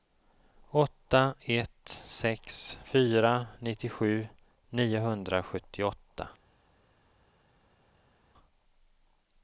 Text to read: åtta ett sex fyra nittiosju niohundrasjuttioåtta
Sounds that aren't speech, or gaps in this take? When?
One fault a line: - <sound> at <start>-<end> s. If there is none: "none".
none